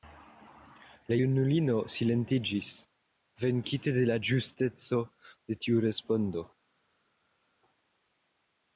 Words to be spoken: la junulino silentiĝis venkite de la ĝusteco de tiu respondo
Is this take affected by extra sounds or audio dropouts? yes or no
no